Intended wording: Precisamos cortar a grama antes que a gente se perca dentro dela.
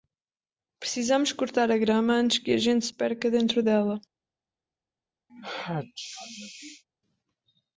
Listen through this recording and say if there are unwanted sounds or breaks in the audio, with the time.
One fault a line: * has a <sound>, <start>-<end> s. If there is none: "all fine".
* has a sneeze, 5.3-6.8 s